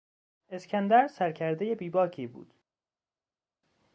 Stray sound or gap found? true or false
false